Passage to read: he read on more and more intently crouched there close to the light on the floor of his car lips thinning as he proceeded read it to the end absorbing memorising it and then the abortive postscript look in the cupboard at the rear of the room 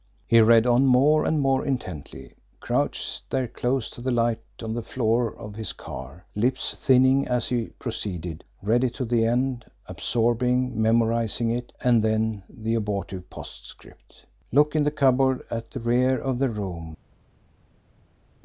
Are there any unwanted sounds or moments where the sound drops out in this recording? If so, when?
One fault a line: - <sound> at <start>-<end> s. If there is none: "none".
none